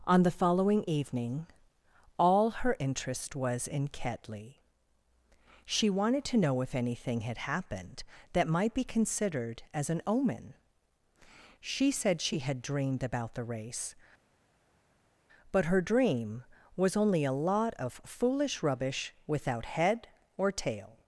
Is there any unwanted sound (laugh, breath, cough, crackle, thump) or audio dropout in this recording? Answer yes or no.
no